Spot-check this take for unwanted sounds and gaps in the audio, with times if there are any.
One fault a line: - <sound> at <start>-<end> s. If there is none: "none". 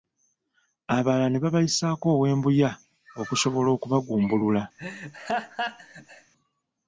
- laugh at 4.8-6.3 s